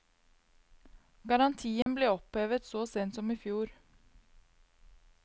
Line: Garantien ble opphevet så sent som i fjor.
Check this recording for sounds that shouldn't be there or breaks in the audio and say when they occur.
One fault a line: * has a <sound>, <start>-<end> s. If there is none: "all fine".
* has a dropout, 1.8-1.9 s